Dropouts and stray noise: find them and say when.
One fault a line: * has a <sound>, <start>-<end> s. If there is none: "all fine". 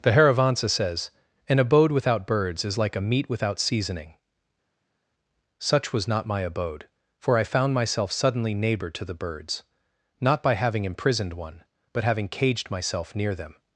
all fine